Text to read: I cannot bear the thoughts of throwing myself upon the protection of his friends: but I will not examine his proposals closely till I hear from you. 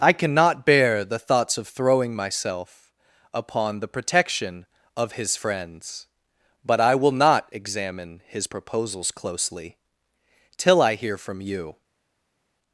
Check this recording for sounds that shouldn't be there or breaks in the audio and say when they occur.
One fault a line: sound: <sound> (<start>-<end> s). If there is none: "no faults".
no faults